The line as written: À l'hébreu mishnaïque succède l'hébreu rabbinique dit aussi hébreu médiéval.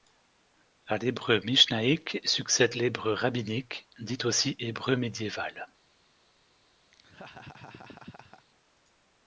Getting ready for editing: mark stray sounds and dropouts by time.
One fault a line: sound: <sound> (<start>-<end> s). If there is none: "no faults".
sound: laugh (6.9-8.5 s)